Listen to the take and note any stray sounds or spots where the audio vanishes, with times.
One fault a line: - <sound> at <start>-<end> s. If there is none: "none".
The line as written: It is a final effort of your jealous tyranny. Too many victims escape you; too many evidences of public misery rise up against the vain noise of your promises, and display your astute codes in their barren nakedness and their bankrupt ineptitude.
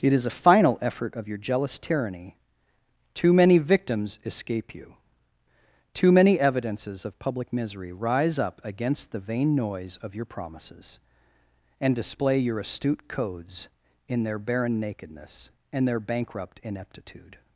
none